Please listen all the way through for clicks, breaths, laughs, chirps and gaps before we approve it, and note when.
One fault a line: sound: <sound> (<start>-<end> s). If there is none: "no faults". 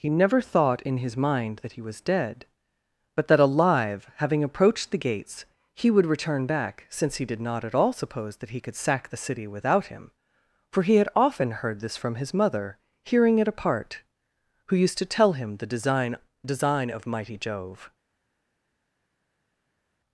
no faults